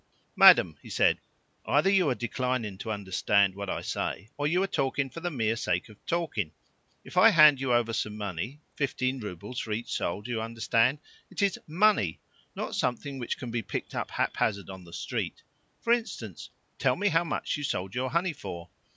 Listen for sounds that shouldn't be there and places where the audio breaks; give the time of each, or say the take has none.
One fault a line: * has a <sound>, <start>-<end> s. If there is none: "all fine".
all fine